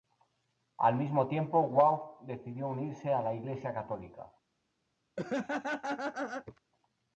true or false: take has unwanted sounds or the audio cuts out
true